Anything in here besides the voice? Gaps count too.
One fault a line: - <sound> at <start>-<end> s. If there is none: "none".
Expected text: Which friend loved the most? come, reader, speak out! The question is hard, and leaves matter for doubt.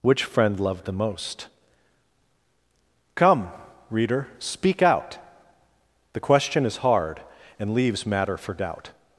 none